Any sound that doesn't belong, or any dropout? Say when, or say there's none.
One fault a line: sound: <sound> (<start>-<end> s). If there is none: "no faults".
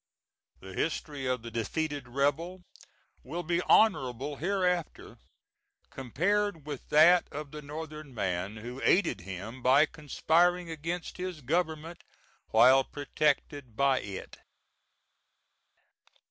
no faults